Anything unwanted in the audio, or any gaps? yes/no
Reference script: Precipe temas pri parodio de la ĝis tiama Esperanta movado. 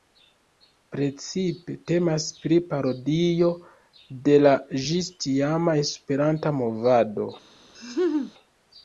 yes